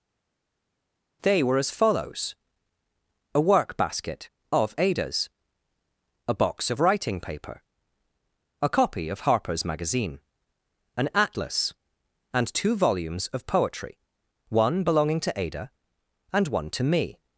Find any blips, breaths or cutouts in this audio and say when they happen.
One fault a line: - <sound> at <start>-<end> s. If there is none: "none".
none